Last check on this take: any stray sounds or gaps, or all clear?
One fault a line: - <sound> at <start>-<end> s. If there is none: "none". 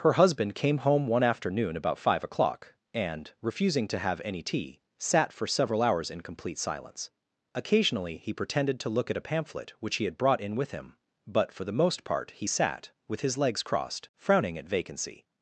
none